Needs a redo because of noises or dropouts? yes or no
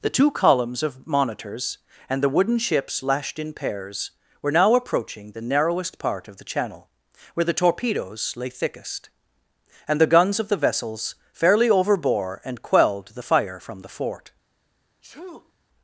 yes